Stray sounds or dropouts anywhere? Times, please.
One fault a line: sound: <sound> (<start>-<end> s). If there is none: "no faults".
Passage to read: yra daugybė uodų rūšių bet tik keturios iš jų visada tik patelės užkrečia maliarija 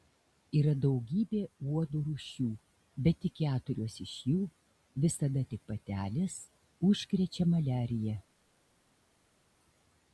no faults